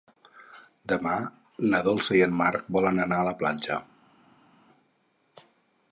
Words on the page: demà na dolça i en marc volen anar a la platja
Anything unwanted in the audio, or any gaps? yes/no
no